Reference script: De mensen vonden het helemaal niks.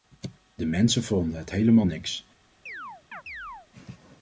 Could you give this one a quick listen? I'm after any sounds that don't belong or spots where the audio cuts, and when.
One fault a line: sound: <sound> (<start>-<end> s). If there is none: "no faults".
sound: chirp (2.7-3.7 s)